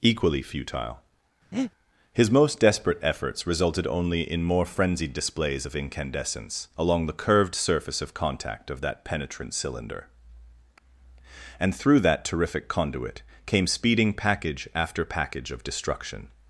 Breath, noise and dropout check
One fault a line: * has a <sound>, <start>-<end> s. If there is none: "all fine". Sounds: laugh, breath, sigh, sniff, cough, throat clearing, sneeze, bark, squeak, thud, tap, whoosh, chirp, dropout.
* has a breath, 1.5-1.7 s